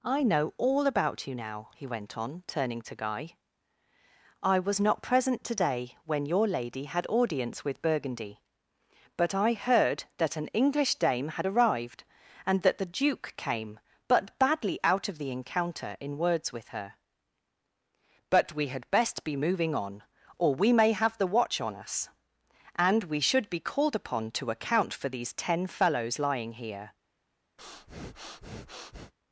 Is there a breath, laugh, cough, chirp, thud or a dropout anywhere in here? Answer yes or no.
yes